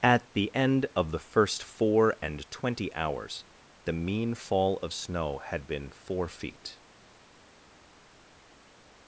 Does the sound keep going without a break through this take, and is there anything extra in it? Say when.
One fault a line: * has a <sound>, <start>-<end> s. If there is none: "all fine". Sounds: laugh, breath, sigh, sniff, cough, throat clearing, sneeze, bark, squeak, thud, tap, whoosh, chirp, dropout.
all fine